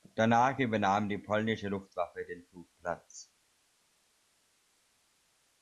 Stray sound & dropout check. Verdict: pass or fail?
pass